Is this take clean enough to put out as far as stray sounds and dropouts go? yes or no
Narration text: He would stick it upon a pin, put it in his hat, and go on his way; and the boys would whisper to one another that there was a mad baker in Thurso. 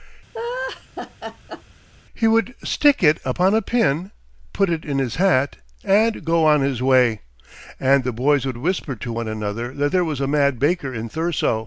no